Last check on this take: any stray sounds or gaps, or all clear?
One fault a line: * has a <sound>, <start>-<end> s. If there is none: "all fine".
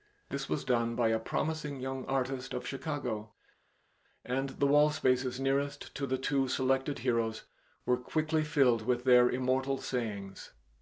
all fine